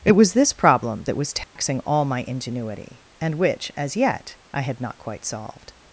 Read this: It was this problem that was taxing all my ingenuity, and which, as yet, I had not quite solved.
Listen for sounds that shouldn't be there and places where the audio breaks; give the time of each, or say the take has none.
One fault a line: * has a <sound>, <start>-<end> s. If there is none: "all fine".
* has a dropout, 1.4-1.6 s